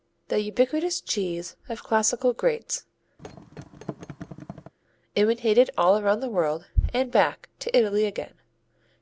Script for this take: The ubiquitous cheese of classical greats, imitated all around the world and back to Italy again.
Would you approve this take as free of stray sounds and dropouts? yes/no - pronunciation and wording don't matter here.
no